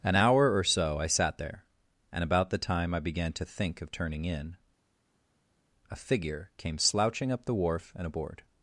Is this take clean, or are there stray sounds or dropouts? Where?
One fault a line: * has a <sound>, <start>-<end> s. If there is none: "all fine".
all fine